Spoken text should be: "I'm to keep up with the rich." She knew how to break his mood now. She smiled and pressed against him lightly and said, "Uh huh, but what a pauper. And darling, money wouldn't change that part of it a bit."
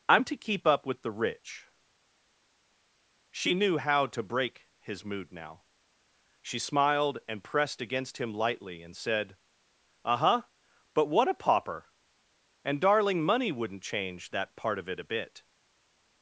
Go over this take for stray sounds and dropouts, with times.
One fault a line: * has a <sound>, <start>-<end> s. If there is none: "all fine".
all fine